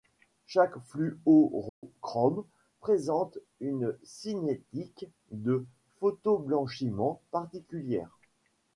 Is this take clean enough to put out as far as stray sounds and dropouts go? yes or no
no